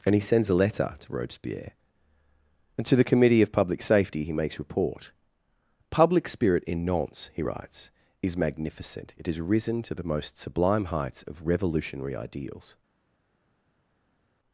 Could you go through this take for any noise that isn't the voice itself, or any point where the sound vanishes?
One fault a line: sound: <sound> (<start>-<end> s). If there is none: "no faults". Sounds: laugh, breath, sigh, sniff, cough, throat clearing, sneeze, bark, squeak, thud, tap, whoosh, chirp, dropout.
no faults